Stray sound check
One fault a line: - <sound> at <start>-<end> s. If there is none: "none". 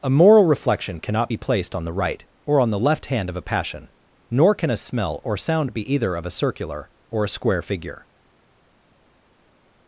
none